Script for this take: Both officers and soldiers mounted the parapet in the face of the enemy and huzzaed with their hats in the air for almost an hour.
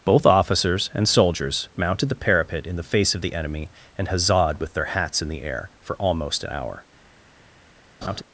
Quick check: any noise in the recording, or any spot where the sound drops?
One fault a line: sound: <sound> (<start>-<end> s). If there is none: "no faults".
sound: laugh (8.0-8.2 s)